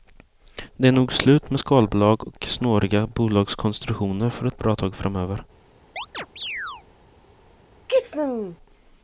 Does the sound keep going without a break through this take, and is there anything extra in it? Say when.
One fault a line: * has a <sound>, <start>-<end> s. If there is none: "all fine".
* has a chirp, 6.0-6.8 s
* has a sneeze, 7.9-8.6 s